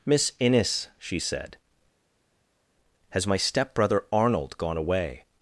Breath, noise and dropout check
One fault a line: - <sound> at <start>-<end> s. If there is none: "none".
none